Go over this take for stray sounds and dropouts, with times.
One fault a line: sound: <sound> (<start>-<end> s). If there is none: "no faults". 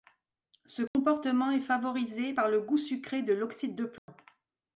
sound: dropout (0.9-0.9 s)
sound: dropout (4.0-4.1 s)